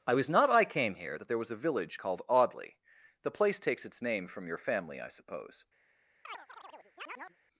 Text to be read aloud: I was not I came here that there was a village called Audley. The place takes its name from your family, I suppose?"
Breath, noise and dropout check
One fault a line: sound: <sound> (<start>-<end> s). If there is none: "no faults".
sound: chirp (6.2-7.4 s)